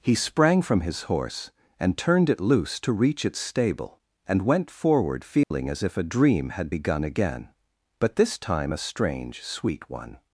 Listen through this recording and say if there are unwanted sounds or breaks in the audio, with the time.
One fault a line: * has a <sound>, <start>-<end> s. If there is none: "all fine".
* has a dropout, 5.4-5.5 s